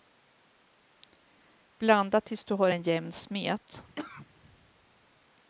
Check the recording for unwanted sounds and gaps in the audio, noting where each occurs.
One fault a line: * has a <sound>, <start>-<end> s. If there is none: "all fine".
* has a cough, 4.0-4.3 s